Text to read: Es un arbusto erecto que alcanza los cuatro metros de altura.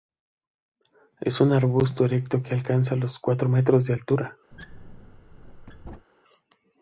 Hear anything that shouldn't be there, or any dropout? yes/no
yes